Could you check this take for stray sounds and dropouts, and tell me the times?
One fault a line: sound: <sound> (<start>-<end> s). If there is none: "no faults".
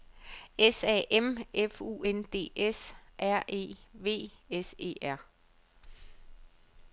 no faults